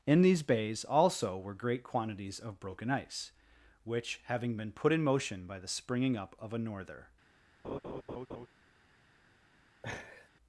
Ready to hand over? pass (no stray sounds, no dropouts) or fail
fail